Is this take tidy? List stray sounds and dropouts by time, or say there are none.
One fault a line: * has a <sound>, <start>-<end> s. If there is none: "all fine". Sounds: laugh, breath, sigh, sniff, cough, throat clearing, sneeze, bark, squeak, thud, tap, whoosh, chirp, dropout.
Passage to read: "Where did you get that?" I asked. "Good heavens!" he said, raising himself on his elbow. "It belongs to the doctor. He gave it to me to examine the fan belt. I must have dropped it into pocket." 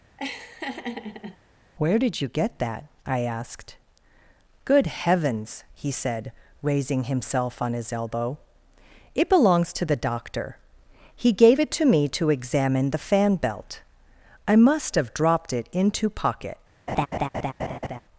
* has a laugh, 0.2-1.4 s
* has a laugh, 16.9-18.0 s